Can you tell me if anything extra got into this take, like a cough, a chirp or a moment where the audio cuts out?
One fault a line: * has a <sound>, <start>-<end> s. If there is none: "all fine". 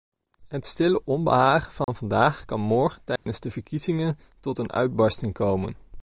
* has a dropout, 1.8-1.9 s
* has a dropout, 3.2-3.3 s